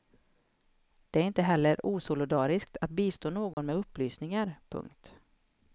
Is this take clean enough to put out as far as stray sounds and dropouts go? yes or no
no